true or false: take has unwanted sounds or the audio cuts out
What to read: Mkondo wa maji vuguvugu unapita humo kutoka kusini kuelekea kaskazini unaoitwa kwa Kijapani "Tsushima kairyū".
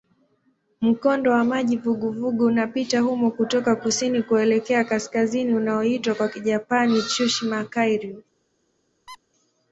true